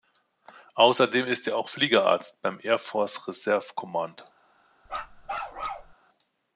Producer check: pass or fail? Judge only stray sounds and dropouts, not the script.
fail